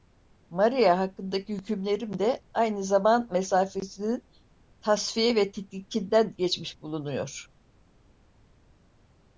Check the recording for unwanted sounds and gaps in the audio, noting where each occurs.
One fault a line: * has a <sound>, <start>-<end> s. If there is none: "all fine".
all fine